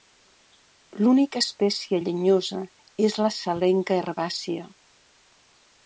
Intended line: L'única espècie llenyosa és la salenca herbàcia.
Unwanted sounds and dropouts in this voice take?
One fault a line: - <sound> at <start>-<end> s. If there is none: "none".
none